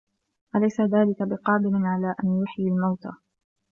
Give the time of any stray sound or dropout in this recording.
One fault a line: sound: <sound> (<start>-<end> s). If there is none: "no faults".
no faults